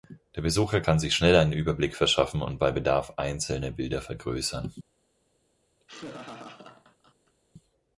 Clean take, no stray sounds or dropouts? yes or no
no